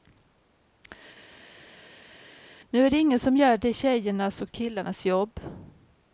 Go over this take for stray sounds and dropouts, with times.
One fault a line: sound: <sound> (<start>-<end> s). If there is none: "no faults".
no faults